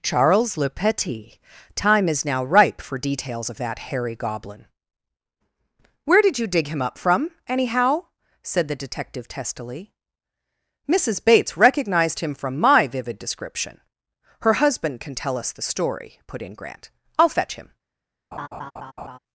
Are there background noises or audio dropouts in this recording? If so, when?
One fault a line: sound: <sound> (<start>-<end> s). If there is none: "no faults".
sound: laugh (18.3-19.2 s)